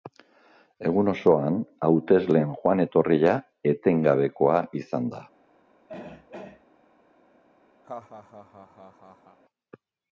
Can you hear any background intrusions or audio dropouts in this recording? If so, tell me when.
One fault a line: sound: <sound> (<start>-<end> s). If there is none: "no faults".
sound: throat clearing (5.9-6.6 s)
sound: laugh (7.8-9.4 s)